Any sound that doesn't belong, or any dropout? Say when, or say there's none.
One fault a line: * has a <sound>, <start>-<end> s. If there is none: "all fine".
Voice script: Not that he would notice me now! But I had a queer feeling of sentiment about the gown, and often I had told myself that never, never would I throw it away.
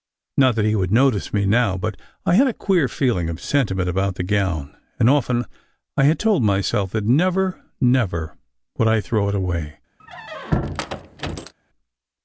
* has a squeak, 10.0-11.5 s